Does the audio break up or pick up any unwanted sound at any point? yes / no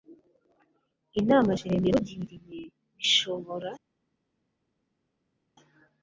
no